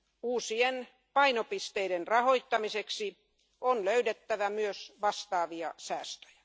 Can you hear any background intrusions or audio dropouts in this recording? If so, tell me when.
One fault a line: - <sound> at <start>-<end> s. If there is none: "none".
none